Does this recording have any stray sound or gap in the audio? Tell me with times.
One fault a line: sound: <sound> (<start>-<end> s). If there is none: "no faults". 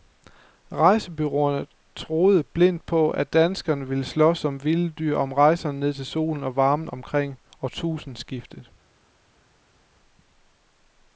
no faults